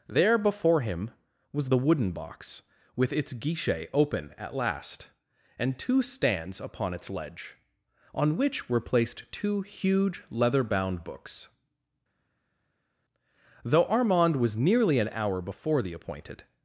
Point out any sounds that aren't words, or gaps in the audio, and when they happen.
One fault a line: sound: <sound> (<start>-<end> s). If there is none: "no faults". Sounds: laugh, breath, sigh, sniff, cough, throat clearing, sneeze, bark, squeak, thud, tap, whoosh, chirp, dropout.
no faults